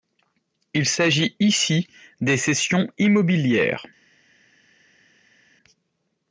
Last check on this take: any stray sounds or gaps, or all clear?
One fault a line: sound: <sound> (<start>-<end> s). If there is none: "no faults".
no faults